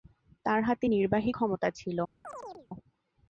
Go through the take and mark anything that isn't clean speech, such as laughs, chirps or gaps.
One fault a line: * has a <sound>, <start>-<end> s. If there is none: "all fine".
* has a chirp, 2.2-2.7 s